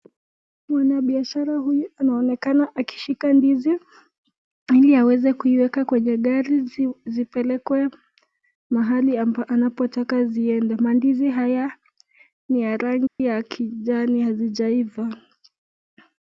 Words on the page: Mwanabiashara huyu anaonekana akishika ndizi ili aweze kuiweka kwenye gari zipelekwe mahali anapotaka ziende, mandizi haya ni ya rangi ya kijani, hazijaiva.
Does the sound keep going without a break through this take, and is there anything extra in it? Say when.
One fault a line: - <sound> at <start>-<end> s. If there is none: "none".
- dropout at 13.1-13.2 s